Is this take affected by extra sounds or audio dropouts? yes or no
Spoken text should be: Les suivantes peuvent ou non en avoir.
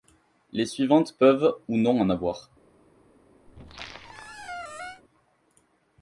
yes